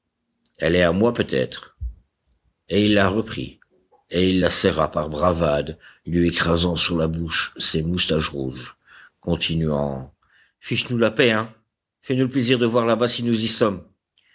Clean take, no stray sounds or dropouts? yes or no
yes